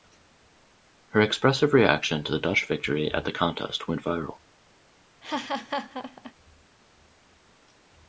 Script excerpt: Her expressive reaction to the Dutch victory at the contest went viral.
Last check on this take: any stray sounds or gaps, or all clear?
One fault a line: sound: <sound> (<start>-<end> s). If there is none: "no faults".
sound: laugh (5.2-6.3 s)